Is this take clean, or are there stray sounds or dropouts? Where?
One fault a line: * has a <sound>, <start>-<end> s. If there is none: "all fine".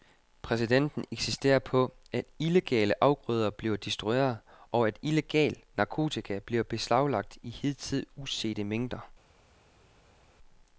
all fine